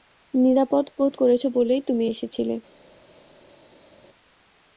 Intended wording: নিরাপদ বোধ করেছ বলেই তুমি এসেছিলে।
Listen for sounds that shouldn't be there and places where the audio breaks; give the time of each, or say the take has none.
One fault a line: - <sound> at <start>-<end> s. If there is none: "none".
none